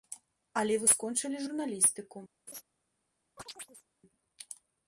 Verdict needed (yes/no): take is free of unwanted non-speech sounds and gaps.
no